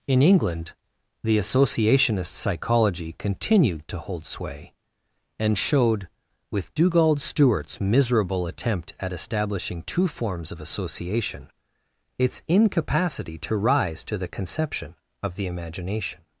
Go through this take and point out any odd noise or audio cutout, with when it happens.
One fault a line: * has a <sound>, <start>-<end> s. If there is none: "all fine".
all fine